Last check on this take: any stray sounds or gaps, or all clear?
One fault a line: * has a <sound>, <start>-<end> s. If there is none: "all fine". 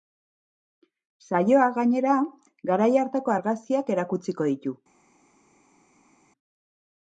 all fine